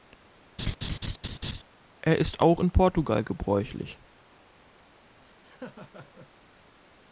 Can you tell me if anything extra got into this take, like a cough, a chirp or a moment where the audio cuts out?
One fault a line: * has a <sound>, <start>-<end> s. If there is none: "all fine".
* has a laugh, 0.6-1.6 s
* has a laugh, 5.2-6.3 s